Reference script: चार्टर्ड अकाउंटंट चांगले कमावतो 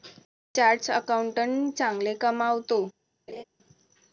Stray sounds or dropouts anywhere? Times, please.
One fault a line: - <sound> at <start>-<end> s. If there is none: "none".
- laugh at 3.3-3.4 s